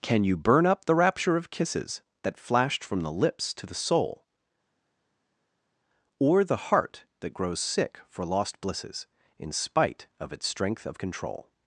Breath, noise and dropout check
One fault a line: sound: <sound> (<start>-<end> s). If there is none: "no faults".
no faults